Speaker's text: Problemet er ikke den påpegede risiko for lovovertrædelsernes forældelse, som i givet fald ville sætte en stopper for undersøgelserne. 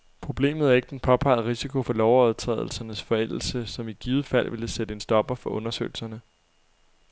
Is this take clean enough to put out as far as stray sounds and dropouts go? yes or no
yes